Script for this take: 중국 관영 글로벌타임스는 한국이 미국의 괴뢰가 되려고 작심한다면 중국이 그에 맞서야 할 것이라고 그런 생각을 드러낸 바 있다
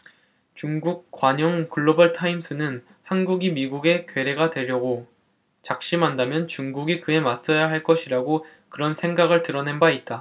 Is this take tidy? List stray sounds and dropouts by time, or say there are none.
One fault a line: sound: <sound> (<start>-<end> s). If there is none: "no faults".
no faults